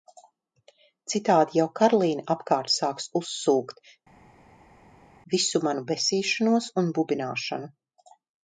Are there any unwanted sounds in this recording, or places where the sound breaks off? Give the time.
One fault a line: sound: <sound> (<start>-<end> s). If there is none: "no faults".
no faults